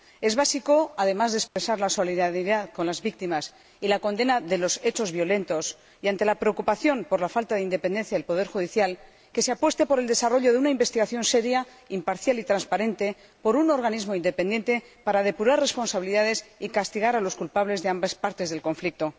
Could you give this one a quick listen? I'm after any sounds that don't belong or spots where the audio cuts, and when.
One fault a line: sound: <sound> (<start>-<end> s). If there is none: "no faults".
sound: dropout (1.5-1.6 s)